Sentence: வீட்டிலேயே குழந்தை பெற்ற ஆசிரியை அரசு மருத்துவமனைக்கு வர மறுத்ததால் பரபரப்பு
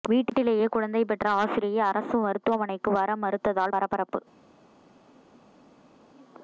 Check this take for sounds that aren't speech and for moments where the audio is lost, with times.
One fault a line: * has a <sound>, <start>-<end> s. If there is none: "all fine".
all fine